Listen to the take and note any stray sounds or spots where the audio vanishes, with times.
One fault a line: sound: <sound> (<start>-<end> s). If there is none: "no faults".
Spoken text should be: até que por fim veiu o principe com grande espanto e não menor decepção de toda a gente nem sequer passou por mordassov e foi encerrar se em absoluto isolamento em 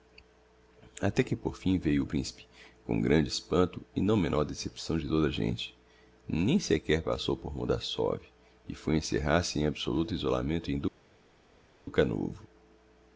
no faults